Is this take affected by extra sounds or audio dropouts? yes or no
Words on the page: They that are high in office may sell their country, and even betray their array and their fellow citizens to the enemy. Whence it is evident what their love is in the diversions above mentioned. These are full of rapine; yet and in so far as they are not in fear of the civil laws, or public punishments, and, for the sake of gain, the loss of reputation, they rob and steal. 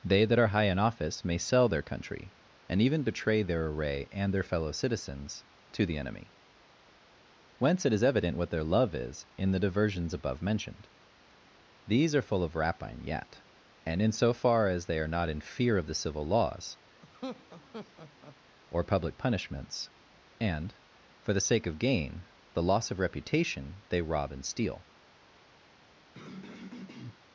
yes